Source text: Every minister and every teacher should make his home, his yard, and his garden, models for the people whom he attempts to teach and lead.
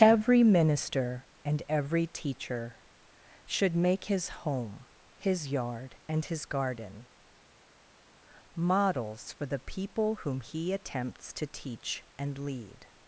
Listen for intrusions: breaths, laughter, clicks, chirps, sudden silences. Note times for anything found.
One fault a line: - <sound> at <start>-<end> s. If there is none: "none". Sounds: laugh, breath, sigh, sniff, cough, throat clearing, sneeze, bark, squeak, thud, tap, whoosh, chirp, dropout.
none